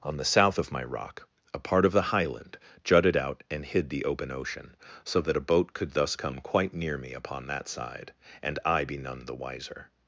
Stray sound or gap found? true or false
false